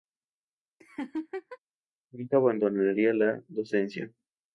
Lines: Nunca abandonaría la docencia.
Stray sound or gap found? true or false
true